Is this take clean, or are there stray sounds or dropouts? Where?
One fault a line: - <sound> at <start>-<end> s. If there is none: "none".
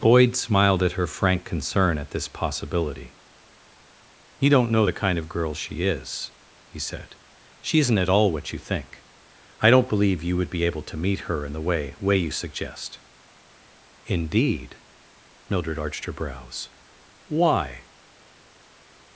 none